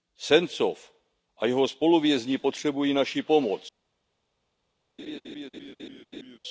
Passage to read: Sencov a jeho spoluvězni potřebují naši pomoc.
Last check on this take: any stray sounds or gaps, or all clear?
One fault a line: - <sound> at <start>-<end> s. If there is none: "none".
- laugh at 5.0-6.4 s